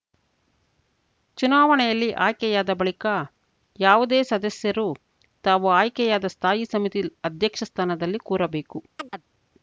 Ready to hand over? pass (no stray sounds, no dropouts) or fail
fail